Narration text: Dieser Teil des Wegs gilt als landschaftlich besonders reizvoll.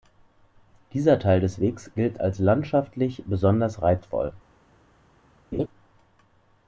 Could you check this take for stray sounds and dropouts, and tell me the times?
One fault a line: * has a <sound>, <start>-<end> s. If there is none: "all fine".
* has a laugh, 5.5-5.7 s